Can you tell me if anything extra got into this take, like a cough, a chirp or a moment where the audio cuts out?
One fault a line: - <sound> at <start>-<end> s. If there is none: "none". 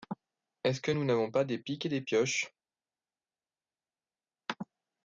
none